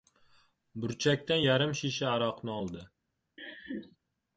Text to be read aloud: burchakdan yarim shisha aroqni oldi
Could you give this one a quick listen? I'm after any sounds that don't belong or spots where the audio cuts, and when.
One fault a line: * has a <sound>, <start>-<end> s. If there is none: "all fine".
* has a laugh, 3.4-4.0 s